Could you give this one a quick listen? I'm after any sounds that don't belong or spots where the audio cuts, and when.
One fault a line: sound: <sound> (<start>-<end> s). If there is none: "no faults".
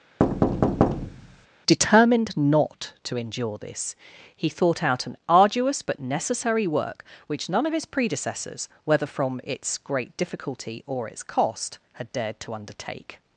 sound: thud (0.2-1.5 s)